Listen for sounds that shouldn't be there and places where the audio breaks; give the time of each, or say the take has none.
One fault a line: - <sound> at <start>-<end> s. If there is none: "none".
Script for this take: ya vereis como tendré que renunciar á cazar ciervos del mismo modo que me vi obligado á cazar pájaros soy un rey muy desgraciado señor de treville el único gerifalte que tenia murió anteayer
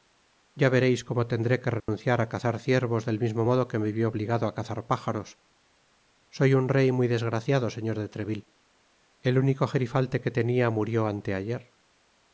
- dropout at 1.8-1.9 s